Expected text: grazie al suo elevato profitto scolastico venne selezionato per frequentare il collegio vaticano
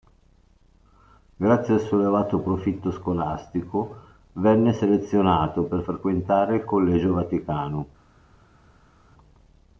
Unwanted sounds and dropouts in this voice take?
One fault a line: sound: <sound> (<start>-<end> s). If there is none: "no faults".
no faults